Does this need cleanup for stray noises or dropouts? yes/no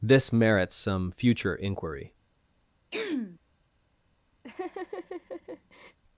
yes